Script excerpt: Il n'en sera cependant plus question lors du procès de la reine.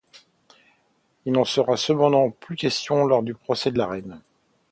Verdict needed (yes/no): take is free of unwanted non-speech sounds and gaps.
yes